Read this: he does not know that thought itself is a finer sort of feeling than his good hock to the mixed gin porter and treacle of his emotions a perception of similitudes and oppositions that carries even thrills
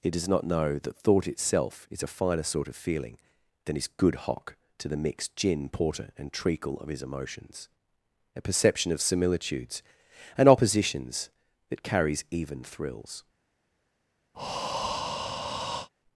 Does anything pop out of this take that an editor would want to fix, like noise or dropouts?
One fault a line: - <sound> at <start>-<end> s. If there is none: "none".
- breath at 14.3-15.9 s